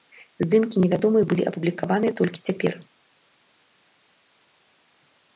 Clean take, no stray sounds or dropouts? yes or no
yes